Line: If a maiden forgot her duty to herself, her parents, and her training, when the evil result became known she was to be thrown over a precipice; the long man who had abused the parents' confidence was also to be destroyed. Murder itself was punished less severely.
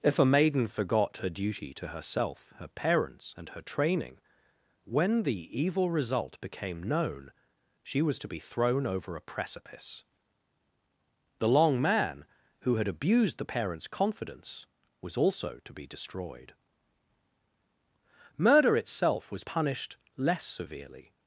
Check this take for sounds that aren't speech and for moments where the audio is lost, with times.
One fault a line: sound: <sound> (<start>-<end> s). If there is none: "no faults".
no faults